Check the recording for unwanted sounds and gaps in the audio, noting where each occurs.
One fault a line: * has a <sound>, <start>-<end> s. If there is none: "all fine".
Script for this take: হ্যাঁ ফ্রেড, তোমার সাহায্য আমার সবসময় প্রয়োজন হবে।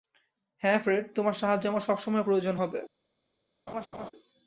* has a laugh, 3.7-4.1 s